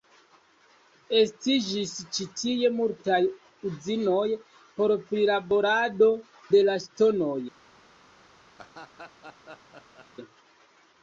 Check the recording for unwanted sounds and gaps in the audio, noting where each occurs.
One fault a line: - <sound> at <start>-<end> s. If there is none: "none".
- laugh at 8.6-10.1 s